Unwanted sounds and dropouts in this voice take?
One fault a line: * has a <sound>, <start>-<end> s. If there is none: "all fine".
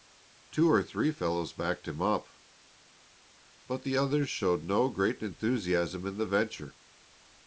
all fine